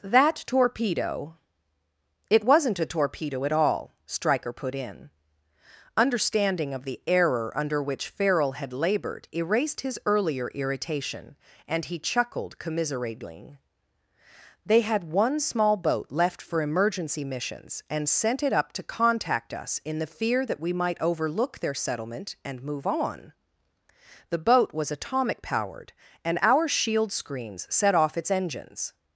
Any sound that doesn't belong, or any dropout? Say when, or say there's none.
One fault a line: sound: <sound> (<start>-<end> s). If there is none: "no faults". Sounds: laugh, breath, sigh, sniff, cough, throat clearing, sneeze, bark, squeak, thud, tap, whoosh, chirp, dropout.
no faults